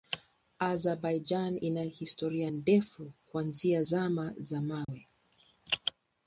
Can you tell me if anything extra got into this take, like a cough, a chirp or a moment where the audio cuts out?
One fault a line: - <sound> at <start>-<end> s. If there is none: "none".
- dropout at 4.8-4.9 s